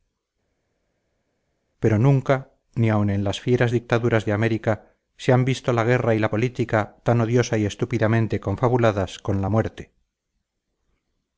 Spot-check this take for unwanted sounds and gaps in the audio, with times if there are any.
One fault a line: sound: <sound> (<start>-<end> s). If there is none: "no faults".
no faults